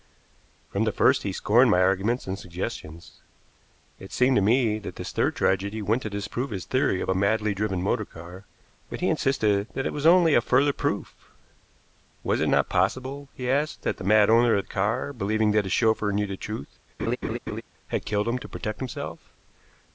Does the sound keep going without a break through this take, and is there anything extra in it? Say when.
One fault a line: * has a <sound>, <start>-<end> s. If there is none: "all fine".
* has a laugh, 17.0-17.6 s